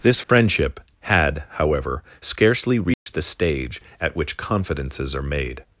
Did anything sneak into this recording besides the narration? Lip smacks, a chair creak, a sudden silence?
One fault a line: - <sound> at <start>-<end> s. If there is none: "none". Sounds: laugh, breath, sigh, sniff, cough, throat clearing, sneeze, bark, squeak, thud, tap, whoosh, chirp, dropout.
- dropout at 0.2-0.3 s
- dropout at 2.9-3.1 s